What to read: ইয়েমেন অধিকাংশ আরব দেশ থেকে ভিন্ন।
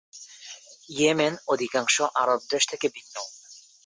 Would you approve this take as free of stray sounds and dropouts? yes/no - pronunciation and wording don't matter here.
yes